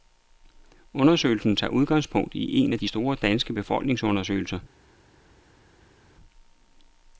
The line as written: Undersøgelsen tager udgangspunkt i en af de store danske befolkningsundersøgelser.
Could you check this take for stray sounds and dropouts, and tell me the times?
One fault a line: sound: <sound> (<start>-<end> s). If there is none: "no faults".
no faults